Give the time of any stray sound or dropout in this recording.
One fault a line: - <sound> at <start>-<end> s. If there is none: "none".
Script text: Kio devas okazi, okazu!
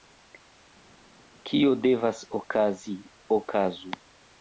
none